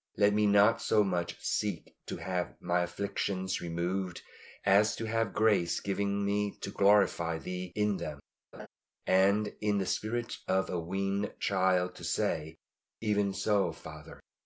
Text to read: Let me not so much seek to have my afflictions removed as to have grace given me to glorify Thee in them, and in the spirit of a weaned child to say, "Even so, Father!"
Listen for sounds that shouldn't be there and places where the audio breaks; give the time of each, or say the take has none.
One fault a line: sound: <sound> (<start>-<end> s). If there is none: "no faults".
sound: laugh (8.5-8.7 s)